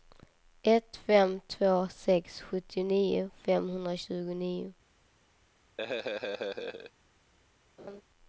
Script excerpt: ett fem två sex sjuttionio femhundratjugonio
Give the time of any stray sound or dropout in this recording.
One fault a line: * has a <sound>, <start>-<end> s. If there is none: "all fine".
* has a laugh, 5.8-6.9 s
* has a laugh, 7.8-8.0 s